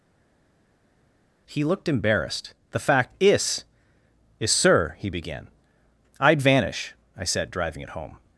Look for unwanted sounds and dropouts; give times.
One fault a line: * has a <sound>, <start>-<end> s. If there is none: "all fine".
all fine